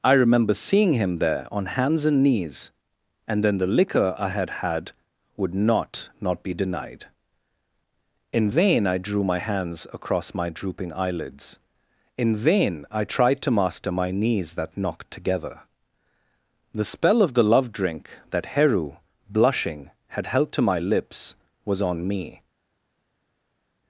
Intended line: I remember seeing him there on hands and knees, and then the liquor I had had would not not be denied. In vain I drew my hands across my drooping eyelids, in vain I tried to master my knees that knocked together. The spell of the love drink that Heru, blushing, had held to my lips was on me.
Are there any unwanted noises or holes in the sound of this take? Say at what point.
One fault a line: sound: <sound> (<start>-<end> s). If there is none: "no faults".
no faults